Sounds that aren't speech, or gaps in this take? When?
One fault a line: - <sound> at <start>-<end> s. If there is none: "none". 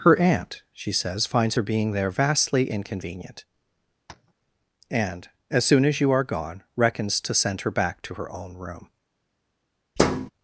- tap at 4.1-4.3 s
- thud at 10.0-10.3 s